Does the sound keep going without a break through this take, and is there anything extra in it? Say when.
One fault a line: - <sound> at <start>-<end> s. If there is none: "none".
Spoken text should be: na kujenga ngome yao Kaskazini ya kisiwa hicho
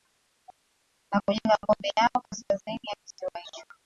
none